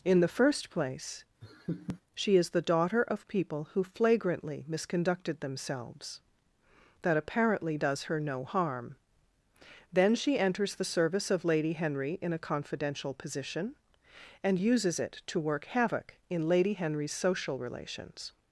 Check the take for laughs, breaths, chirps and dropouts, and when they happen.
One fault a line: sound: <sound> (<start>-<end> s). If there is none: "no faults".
sound: laugh (1.4-2.0 s)